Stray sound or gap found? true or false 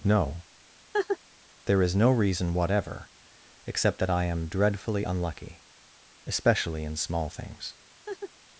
true